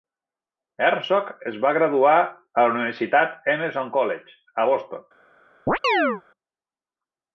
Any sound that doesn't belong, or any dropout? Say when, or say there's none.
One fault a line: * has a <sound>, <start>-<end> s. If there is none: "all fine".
* has a chirp, 5.7-6.2 s